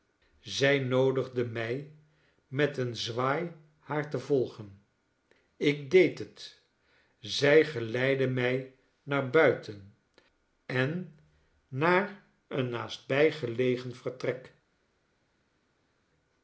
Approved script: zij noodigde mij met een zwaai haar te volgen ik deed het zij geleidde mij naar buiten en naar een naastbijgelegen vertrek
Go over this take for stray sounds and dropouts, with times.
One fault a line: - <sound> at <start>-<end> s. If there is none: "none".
none